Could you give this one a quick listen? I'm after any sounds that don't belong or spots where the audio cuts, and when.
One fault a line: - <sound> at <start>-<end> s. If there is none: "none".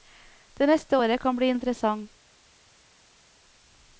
none